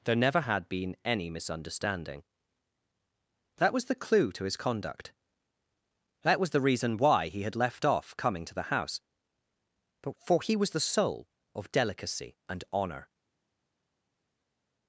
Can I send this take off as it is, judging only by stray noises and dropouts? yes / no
yes